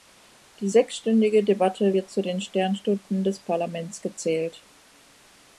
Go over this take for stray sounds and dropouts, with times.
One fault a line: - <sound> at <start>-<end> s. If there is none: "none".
none